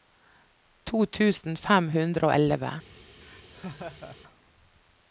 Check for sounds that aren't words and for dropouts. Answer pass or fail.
fail